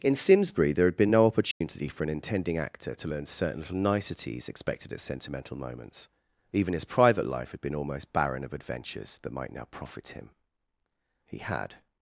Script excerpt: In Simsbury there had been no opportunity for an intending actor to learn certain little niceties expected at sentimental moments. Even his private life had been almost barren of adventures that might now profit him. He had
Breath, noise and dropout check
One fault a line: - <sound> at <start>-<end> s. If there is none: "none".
- dropout at 1.5-1.6 s